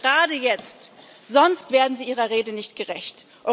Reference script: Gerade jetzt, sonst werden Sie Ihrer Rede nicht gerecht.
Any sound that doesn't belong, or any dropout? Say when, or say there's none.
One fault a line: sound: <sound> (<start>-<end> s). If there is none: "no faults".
no faults